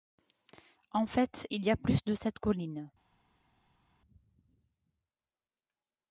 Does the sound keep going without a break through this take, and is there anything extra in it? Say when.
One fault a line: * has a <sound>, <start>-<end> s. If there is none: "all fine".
all fine